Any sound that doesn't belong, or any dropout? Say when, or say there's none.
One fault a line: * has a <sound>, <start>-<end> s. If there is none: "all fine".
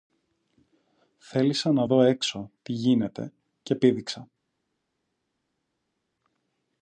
all fine